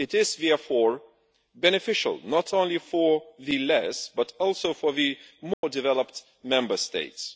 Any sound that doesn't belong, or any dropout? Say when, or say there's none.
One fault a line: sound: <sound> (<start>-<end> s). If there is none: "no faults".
sound: dropout (5.5-5.6 s)